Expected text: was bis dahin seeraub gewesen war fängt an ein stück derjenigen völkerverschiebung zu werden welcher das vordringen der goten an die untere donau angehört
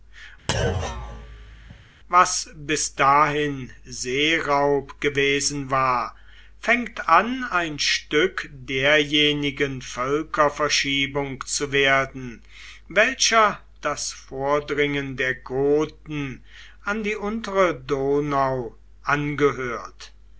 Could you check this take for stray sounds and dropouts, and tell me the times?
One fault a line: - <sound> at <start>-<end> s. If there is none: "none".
- thud at 0.5-1.8 s